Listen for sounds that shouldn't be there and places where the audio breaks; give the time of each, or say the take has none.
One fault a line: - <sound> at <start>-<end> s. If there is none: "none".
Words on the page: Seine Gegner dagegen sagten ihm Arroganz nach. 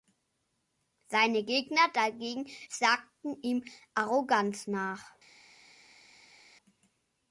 none